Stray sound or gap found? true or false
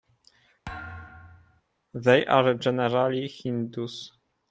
true